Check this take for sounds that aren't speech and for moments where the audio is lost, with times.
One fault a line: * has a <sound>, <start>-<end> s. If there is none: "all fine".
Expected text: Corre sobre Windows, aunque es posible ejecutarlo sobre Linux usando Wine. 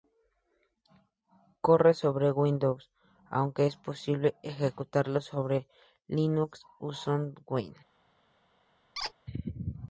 * has a squeak, 9.0-9.1 s